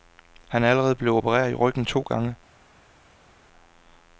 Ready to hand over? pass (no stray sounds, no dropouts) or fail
pass